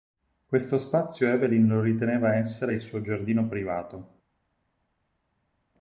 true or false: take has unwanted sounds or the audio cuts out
false